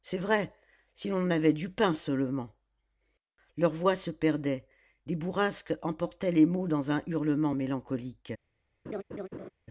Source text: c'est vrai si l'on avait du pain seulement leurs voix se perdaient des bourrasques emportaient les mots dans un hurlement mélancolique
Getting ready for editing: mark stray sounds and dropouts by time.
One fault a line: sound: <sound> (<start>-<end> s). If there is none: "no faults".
sound: laugh (8.9-9.5 s)